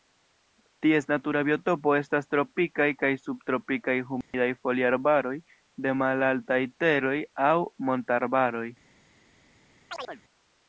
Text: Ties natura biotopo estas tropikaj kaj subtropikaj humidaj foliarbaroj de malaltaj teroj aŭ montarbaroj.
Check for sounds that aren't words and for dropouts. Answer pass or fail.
fail